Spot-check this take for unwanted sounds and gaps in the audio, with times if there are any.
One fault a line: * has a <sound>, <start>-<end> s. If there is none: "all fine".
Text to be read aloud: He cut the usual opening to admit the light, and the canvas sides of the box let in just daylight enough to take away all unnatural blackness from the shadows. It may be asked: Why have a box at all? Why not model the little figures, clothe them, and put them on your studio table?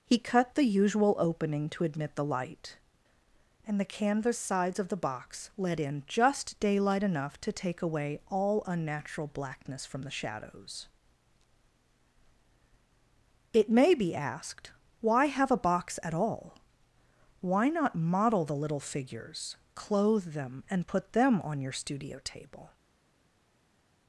all fine